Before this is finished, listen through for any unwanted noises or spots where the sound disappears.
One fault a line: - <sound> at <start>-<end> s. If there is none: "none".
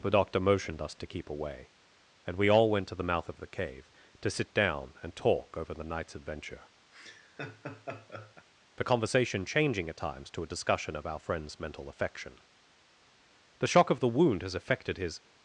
- laugh at 6.9-8.5 s